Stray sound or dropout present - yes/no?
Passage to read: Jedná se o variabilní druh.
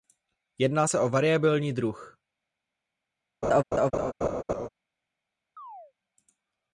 yes